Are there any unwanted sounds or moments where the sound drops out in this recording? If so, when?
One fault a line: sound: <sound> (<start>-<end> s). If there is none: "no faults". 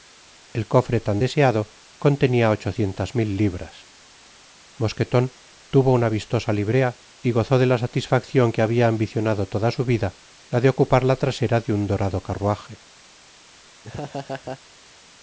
sound: laugh (13.8-14.6 s)